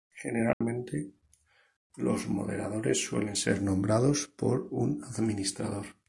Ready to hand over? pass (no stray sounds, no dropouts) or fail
fail